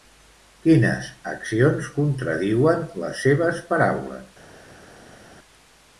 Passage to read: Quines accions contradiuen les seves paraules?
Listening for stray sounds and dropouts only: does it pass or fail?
pass